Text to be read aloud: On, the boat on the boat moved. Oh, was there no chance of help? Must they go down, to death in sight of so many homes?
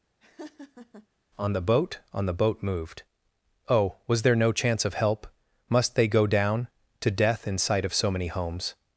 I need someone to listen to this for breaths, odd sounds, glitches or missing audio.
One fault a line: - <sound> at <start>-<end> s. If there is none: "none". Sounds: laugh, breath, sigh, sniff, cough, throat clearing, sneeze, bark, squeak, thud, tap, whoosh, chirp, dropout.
- laugh at 0.2-1.1 s